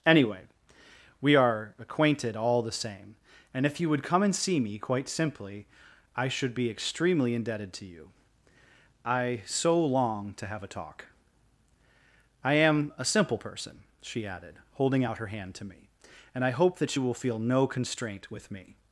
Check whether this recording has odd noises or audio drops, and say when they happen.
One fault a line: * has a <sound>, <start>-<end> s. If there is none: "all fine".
all fine